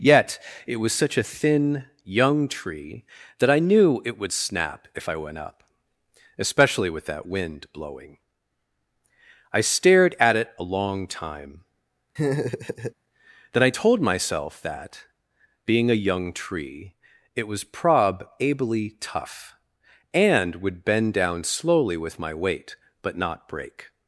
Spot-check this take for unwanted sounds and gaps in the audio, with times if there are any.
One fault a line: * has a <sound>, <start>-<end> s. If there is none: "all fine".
* has a laugh, 12.2-12.9 s